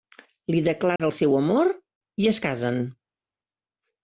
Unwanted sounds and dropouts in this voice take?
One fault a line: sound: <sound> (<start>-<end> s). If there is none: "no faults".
sound: dropout (1.0-1.0 s)